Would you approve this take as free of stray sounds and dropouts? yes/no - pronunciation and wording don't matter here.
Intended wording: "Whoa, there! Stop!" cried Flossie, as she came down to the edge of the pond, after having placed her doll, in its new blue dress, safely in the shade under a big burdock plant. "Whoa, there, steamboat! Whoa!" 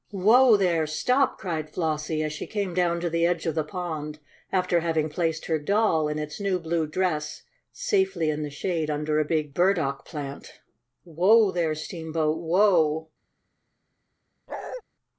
no